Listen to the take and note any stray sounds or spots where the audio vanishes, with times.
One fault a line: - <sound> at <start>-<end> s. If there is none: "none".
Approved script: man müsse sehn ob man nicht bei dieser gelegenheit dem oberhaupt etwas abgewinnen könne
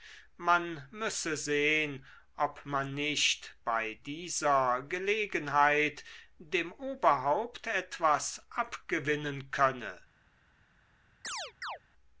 - chirp at 11.2-11.8 s